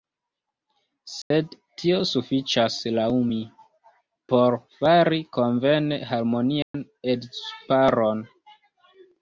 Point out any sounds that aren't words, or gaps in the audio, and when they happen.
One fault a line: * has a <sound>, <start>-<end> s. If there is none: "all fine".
* has a dropout, 1.2-1.3 s
* has a dropout, 6.6-6.7 s